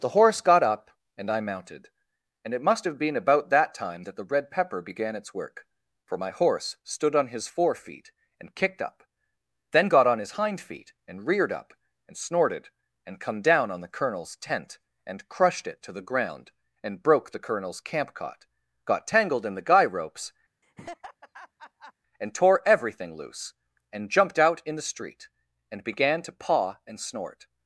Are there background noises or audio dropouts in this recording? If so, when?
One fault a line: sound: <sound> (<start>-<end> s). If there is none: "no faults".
sound: laugh (20.6-21.9 s)